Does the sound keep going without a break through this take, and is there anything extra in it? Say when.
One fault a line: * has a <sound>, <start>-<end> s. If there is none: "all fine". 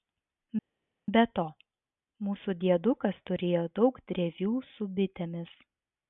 all fine